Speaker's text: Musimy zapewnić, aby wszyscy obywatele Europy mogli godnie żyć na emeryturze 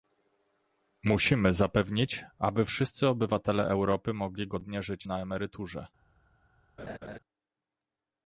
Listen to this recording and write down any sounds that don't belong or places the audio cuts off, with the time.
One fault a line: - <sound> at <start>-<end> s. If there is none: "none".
- laugh at 6.8-7.2 s